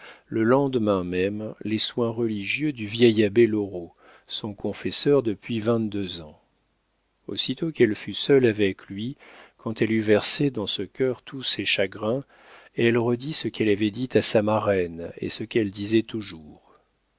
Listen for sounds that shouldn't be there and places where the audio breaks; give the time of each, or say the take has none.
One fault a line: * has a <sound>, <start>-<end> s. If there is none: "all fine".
all fine